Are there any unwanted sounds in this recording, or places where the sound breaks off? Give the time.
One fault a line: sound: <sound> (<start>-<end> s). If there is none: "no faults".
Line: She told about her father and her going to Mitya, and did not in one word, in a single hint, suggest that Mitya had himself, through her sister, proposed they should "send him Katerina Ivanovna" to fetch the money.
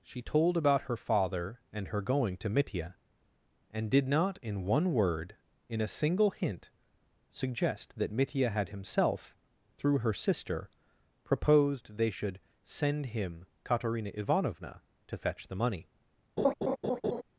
sound: laugh (16.4-17.2 s)